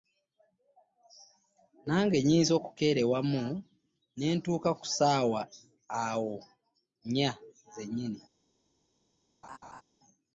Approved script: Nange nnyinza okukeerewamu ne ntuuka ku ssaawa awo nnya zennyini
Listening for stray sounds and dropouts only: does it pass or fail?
fail